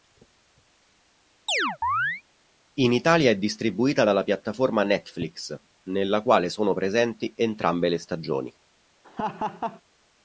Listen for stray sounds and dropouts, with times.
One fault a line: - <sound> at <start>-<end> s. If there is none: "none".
- chirp at 1.5-2.2 s
- laugh at 9.0-9.8 s